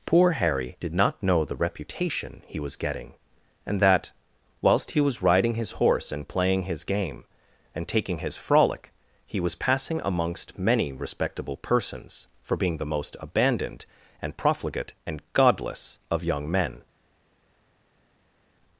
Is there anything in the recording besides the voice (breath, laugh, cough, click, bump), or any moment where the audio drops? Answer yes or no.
no